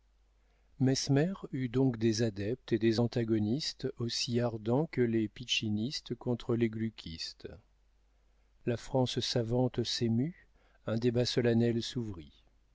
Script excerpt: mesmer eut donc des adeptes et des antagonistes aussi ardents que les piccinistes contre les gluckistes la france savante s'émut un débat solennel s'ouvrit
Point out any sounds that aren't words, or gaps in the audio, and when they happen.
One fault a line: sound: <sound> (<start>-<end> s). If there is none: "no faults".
no faults